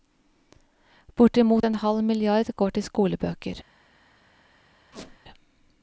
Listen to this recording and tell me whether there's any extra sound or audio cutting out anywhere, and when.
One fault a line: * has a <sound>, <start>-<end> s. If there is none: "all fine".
* has a squeak, 4.9-5.2 s